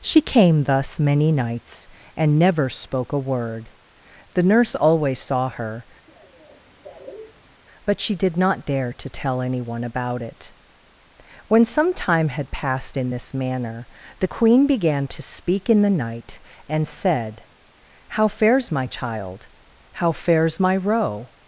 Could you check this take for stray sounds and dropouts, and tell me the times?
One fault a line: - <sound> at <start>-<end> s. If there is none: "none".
- cough at 6.1-7.6 s